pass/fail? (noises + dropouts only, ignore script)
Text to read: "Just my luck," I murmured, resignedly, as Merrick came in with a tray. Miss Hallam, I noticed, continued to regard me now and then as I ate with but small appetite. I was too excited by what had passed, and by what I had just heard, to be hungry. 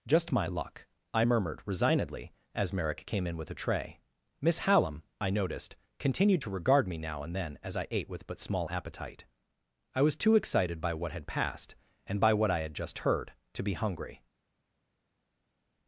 pass